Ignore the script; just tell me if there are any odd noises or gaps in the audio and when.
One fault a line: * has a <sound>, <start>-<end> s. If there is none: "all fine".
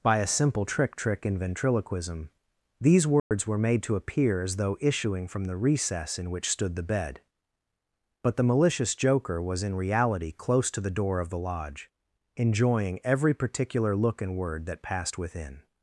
* has a dropout, 3.2-3.3 s